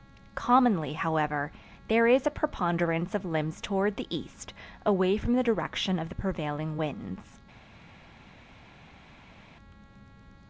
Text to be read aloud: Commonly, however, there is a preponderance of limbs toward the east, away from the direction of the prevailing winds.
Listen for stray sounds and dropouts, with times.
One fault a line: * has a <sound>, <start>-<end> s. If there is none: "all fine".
all fine